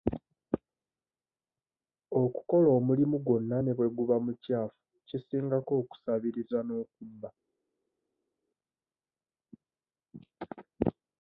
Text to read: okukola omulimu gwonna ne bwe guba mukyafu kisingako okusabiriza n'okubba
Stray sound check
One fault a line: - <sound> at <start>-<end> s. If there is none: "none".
none